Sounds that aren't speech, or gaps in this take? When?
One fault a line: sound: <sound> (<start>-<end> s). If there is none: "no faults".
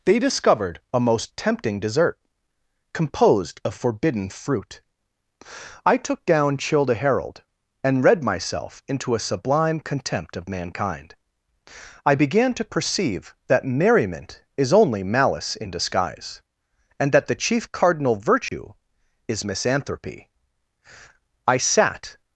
sound: dropout (18.5-18.5 s)